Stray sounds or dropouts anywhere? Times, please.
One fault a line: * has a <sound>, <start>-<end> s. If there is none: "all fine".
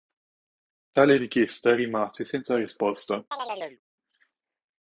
* has a chirp, 3.3-3.8 s